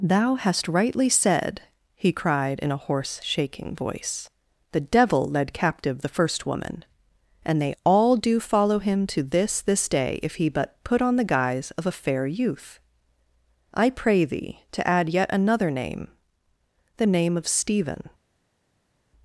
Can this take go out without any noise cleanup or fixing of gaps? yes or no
yes